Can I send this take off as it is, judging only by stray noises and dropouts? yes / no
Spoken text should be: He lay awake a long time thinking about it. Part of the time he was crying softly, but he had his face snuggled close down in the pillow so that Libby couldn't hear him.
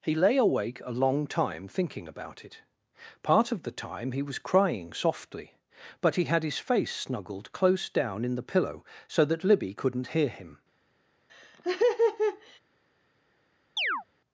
no